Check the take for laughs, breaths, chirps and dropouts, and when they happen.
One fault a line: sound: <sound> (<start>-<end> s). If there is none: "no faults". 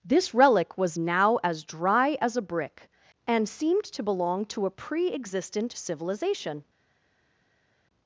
no faults